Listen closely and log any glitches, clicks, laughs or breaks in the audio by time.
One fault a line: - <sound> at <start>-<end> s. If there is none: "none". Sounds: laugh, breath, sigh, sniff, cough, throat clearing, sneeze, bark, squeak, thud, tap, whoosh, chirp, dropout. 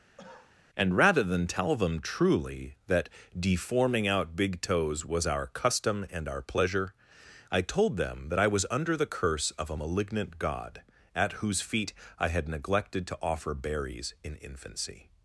- cough at 0.2-0.6 s